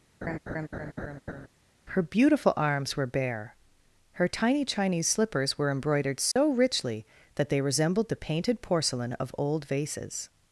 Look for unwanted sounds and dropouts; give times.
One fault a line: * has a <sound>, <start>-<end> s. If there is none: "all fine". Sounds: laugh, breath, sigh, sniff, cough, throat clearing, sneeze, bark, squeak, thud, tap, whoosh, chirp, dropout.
* has a laugh, 0.2-1.5 s
* has a dropout, 6.3-6.4 s